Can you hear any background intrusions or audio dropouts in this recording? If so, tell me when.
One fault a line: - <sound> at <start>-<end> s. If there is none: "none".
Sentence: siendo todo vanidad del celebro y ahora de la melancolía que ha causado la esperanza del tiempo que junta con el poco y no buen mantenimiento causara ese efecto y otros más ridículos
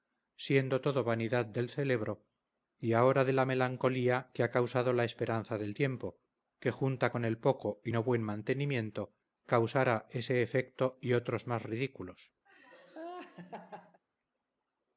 - laugh at 12.5-14.0 s